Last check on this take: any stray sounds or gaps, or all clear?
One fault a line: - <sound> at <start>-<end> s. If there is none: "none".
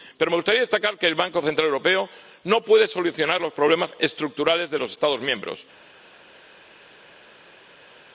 none